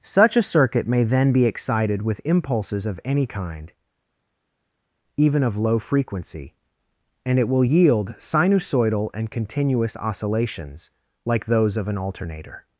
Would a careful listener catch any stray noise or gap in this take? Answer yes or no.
no